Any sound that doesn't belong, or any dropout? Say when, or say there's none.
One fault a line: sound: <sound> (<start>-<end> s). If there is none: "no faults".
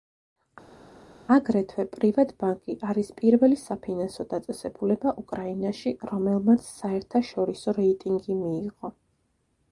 no faults